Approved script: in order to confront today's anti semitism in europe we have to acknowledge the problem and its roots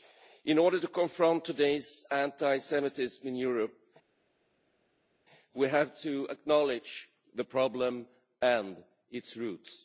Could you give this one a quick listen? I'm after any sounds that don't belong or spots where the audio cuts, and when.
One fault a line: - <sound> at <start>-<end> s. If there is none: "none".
none